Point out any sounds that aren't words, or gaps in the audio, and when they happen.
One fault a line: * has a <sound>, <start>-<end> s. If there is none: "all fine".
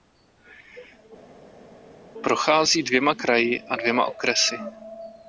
all fine